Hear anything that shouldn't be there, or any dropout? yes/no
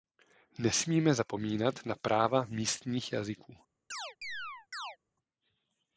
yes